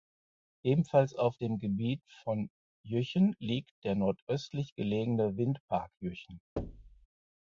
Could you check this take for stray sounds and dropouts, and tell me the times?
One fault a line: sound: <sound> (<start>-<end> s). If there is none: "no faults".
sound: thud (6.6-7.1 s)